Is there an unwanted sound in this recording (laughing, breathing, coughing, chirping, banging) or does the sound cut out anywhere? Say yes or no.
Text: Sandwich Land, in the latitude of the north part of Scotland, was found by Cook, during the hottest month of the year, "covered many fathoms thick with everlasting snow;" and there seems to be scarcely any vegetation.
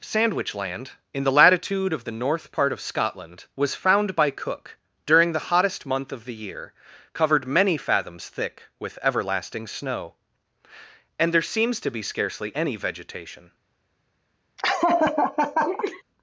yes